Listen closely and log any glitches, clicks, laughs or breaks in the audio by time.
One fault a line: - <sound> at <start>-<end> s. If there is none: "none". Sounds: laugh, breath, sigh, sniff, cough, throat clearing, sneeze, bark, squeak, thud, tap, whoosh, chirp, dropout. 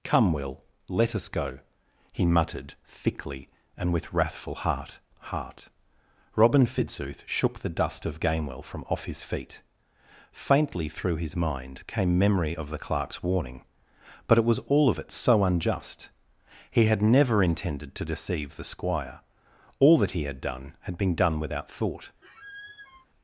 - squeak at 22.2-23.1 s